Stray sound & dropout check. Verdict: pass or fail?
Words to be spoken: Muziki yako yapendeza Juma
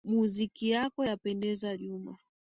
pass